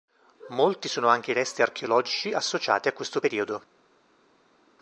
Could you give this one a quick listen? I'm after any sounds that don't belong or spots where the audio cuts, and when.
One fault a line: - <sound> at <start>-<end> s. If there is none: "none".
none